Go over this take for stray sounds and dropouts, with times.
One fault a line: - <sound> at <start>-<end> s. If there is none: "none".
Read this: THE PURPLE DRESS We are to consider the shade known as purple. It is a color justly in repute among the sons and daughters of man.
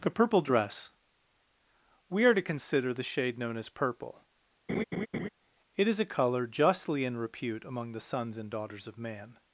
- laugh at 4.7-5.3 s